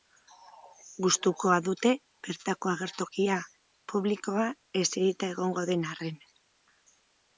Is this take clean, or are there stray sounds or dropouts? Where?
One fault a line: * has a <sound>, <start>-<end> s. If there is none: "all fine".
all fine